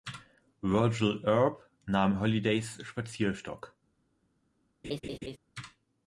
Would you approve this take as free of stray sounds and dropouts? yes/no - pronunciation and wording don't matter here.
no